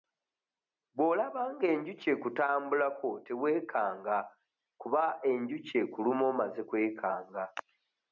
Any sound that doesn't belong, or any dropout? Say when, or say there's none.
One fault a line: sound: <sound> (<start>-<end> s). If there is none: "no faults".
no faults